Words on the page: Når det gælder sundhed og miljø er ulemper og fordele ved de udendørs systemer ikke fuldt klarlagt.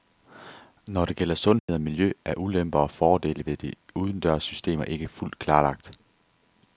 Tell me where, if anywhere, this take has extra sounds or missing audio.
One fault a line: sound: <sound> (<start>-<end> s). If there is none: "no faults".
sound: dropout (1.6-1.7 s)